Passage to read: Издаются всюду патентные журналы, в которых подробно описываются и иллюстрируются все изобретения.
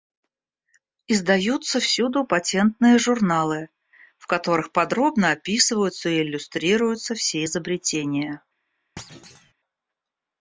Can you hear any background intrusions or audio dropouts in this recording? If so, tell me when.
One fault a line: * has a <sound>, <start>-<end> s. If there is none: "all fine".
* has a thud, 9.0-9.5 s